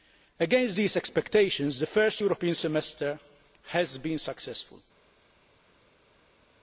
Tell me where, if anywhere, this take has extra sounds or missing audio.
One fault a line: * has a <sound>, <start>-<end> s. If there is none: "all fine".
all fine